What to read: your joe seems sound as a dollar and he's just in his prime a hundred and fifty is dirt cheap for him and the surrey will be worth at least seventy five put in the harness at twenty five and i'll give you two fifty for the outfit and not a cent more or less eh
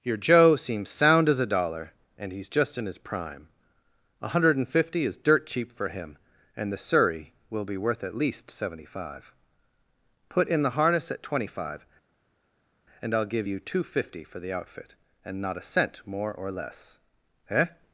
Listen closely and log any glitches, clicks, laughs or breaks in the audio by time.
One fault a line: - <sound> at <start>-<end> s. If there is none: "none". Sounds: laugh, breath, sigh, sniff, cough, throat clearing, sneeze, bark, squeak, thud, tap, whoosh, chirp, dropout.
none